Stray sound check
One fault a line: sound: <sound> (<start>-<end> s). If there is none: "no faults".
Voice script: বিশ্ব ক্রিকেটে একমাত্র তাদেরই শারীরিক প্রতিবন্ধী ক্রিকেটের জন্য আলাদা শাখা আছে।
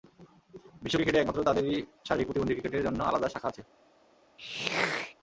sound: throat clearing (4.4-5.2 s)